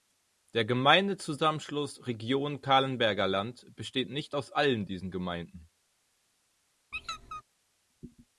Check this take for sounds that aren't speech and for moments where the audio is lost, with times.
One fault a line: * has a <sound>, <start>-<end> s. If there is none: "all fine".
* has a squeak, 6.9-7.4 s